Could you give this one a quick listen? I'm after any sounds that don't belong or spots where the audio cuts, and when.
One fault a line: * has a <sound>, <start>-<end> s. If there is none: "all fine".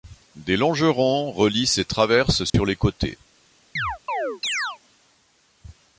* has a dropout, 2.5-2.5 s
* has a chirp, 3.8-4.8 s